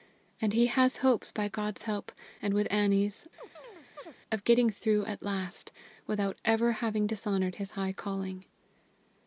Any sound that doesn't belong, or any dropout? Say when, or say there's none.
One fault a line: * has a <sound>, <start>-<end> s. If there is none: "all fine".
* has a chirp, 3.4-4.1 s